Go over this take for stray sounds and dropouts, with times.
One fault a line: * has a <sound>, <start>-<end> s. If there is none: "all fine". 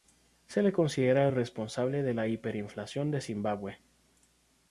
all fine